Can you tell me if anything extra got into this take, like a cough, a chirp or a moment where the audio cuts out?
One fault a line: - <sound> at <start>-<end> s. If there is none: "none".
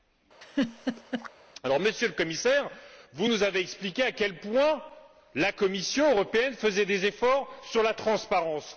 - laugh at 0.4-1.3 s